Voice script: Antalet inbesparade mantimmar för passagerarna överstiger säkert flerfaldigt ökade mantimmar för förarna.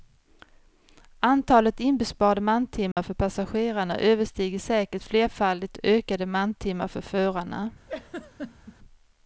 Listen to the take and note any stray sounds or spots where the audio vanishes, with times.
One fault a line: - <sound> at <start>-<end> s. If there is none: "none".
- dropout at 2.9-3.0 s
- laugh at 7.9-8.8 s